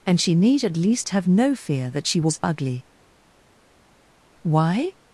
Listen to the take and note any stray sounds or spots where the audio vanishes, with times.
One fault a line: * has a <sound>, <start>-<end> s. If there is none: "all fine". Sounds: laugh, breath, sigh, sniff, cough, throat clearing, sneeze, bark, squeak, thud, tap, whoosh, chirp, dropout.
all fine